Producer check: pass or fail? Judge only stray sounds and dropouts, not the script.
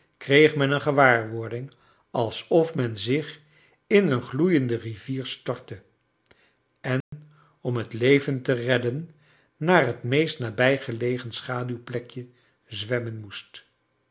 fail